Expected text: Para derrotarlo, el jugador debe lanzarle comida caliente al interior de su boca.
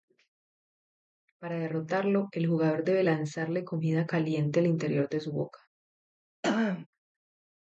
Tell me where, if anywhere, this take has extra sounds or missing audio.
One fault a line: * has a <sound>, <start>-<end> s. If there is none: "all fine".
* has a throat clearing, 6.4-6.9 s